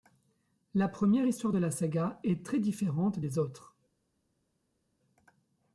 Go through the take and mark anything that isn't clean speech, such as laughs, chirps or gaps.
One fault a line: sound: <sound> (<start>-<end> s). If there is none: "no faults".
no faults